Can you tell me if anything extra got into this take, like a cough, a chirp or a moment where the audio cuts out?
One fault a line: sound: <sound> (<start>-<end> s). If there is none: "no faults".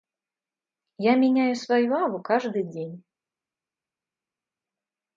no faults